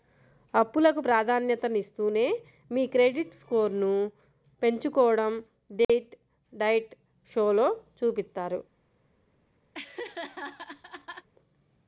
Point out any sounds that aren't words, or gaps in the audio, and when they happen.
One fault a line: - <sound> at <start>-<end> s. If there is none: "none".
- dropout at 5.8-5.9 s
- laugh at 9.7-11.3 s